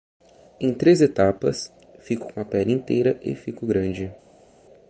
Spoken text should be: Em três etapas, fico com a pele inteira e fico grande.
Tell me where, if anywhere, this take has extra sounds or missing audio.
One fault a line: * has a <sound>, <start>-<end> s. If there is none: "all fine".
all fine